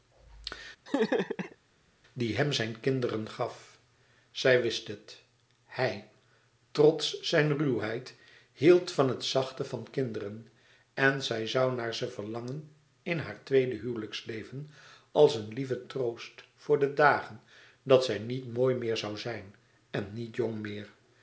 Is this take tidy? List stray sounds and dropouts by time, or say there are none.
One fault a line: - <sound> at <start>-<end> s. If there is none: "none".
- laugh at 0.9-1.6 s